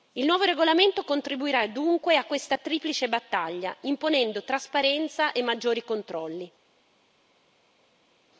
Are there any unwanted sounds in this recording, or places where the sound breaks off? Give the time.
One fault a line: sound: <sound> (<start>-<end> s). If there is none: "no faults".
no faults